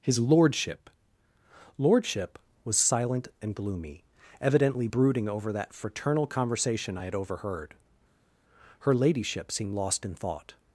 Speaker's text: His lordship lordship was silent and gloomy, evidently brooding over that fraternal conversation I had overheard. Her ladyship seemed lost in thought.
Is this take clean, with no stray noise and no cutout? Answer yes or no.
yes